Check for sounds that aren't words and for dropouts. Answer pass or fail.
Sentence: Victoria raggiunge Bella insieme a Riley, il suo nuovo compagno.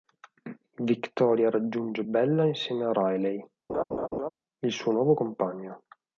fail